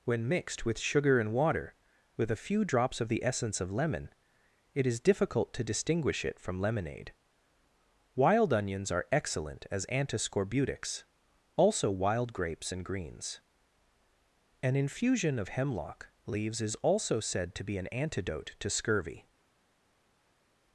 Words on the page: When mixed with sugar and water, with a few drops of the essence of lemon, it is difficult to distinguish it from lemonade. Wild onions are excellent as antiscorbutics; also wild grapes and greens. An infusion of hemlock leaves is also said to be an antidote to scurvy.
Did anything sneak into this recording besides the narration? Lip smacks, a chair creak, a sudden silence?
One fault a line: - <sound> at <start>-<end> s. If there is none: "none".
none